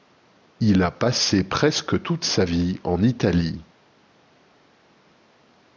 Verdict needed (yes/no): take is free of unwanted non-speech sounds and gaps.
yes